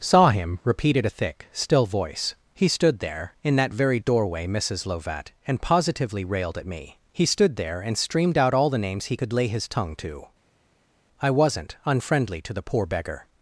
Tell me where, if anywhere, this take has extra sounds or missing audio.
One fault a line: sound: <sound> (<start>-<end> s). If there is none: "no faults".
no faults